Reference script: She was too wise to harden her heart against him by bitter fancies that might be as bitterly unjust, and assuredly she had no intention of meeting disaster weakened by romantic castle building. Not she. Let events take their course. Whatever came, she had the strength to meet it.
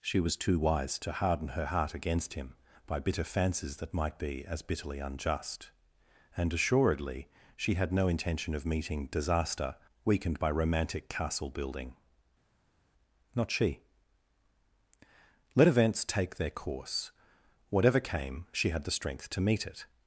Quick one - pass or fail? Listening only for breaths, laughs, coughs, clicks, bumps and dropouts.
pass